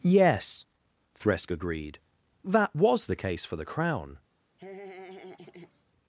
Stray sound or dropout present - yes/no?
yes